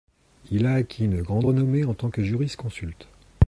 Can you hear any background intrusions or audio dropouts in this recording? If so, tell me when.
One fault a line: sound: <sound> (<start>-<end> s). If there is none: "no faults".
no faults